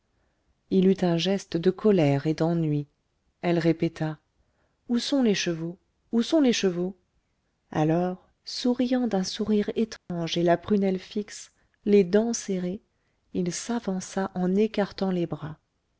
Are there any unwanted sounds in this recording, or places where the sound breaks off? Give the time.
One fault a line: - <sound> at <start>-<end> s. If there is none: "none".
- dropout at 10.0-10.1 s